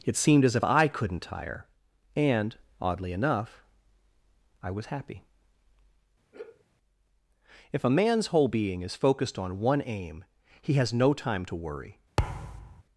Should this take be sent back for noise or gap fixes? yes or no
yes